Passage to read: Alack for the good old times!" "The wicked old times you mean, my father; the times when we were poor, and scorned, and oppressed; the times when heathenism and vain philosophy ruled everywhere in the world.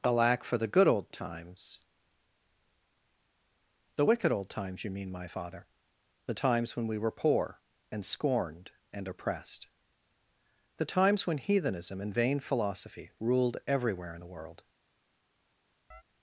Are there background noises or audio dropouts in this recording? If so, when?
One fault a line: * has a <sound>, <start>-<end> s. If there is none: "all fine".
* has a chirp, 15.9-16.0 s